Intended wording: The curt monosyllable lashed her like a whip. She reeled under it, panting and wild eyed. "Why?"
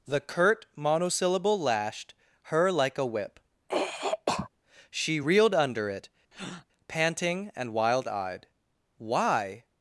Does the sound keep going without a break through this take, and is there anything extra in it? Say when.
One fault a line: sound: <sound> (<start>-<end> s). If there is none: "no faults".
sound: throat clearing (3.7-4.5 s)
sound: breath (6.3-6.7 s)